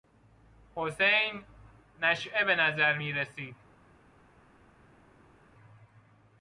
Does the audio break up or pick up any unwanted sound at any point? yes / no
no